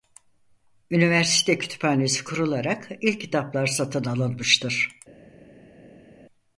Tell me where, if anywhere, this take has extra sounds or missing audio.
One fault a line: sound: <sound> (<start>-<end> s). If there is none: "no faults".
no faults